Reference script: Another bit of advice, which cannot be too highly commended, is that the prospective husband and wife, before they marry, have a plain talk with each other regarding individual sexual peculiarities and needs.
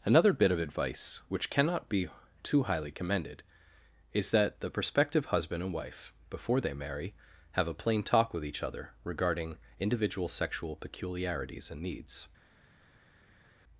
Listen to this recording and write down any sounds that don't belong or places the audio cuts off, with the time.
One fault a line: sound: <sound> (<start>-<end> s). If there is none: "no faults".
no faults